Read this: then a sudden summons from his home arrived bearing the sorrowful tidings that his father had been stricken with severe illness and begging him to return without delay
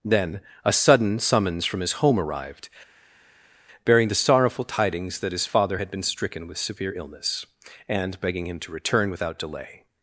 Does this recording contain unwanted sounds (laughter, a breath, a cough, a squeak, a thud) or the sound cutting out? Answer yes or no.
no